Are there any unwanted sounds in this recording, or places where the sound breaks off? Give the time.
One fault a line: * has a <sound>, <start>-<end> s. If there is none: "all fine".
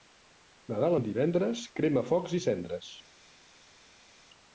all fine